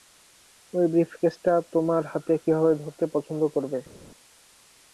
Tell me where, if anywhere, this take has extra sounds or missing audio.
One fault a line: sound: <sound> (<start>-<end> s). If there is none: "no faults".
no faults